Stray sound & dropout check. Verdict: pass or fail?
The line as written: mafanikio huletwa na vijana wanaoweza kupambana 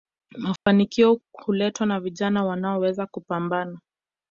fail